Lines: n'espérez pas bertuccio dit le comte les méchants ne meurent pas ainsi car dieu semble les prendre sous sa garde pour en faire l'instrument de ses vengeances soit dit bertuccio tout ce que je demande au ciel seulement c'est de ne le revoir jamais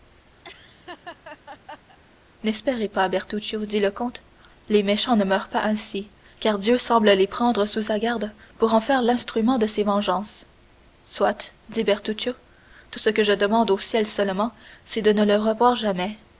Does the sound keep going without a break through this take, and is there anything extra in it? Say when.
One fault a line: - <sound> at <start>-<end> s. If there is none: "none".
- laugh at 0.4-2.0 s